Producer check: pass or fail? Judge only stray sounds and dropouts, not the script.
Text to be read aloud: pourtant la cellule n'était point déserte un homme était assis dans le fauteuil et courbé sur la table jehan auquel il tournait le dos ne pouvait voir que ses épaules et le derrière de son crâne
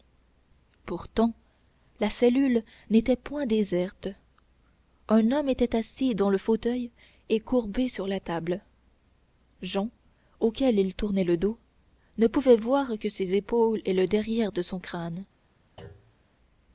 fail